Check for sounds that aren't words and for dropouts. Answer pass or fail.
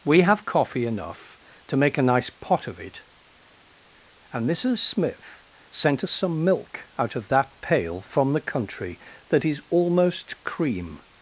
pass